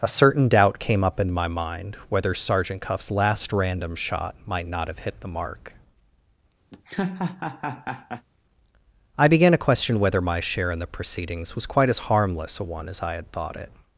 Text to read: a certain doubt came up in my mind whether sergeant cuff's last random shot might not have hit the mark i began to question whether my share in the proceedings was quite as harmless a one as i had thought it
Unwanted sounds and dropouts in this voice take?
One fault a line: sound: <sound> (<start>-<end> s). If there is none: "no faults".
sound: laugh (6.7-8.3 s)